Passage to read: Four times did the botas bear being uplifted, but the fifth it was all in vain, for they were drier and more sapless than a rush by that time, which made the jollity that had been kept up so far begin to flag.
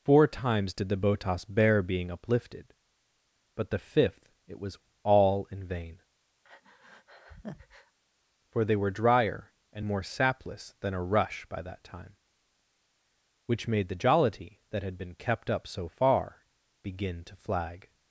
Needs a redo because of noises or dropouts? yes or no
yes